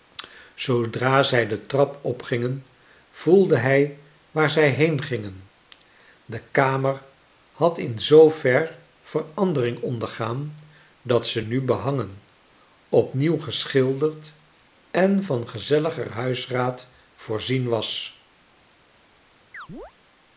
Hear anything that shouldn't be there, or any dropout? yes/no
yes